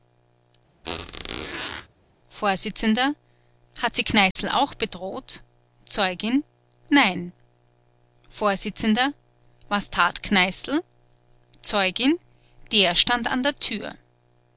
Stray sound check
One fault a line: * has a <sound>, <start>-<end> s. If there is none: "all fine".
* has a squeak, 0.8-1.9 s
* has a dropout, 4.3-4.4 s